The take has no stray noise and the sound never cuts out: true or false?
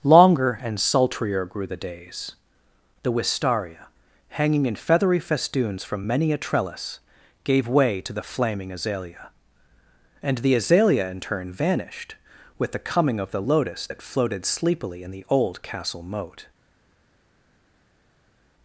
true